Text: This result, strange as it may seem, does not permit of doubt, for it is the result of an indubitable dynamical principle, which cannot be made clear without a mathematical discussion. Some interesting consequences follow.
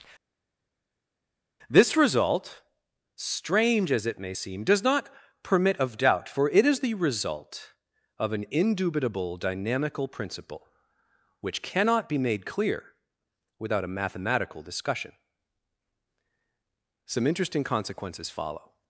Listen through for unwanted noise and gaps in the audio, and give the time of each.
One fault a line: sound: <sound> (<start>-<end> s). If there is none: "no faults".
no faults